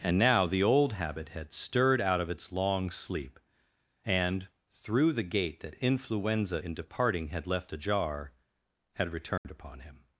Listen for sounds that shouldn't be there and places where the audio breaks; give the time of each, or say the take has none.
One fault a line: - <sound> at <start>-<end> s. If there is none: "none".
- dropout at 9.4-9.4 s